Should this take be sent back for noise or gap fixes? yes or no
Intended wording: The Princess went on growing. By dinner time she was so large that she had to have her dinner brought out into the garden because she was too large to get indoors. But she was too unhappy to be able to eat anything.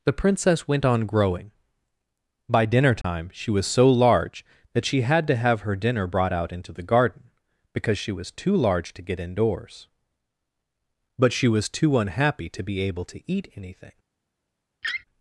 yes